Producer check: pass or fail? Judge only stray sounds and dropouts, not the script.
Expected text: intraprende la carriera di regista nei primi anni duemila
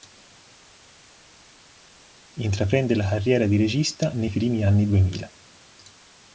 pass